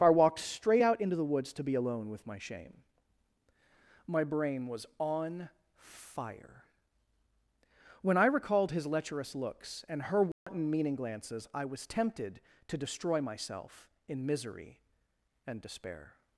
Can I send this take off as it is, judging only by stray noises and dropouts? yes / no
no